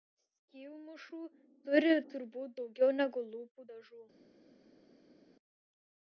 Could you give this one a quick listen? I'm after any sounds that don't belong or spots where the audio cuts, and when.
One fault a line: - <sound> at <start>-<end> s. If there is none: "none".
none